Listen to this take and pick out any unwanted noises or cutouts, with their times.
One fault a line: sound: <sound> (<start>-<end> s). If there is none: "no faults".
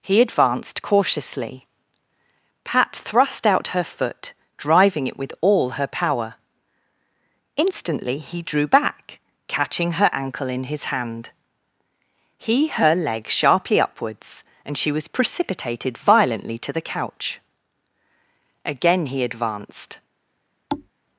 sound: thud (20.7-20.9 s)